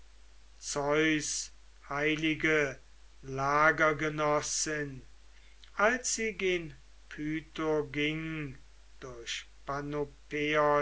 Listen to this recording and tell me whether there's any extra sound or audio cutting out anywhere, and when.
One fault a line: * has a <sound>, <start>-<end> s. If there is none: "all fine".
all fine